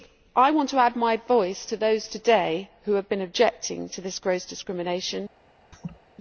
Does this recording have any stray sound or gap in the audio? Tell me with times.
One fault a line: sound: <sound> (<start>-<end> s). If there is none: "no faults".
sound: laugh (5.7-6.0 s)